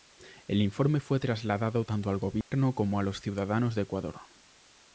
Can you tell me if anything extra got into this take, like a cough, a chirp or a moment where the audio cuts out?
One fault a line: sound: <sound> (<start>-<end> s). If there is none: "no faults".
sound: dropout (2.4-2.5 s)